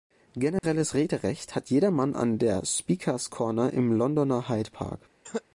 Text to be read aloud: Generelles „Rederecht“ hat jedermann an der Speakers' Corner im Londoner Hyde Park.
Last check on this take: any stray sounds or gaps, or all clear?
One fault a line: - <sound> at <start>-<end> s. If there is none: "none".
- dropout at 0.6-0.6 s
- cough at 5.2-5.4 s